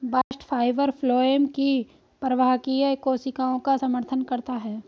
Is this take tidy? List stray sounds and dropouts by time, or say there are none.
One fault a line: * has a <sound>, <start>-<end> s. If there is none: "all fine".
* has a dropout, 0.2-0.3 s